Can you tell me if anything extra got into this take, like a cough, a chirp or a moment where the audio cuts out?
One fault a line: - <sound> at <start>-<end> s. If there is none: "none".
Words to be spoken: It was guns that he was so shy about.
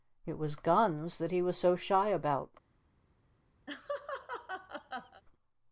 - laugh at 3.7-5.2 s